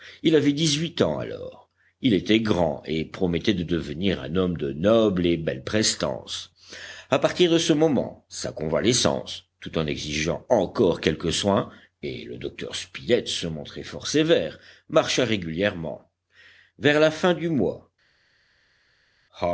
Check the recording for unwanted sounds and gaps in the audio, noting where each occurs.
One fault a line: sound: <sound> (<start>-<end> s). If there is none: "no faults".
no faults